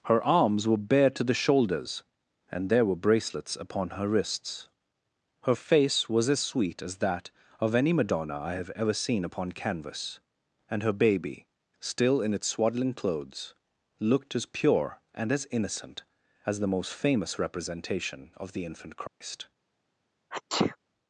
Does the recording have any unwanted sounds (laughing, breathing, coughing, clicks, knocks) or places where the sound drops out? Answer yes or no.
yes